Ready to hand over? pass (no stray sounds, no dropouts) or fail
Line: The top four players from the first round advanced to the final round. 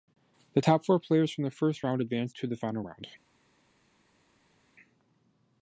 pass